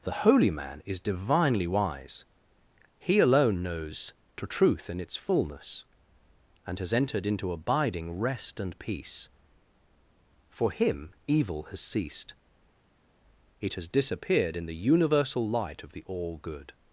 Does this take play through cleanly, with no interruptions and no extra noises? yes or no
yes